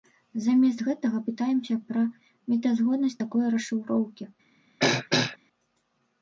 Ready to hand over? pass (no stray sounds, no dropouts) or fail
fail